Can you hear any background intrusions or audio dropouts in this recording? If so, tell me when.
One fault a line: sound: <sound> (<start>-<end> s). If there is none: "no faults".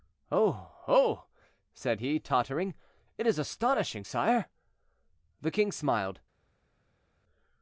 no faults